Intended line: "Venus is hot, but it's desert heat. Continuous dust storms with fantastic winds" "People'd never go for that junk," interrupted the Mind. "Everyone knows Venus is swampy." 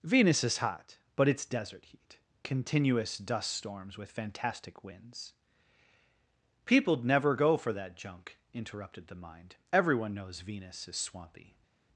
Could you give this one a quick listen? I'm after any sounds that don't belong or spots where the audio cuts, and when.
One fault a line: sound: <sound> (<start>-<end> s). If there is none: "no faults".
no faults